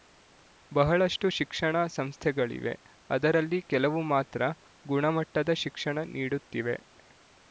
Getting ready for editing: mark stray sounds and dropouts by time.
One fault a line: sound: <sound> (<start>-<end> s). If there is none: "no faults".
no faults